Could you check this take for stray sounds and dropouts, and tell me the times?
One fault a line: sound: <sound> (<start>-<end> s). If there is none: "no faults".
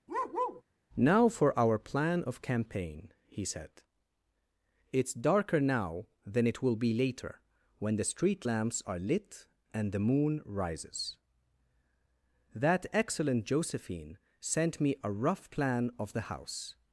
sound: bark (0.1-0.6 s)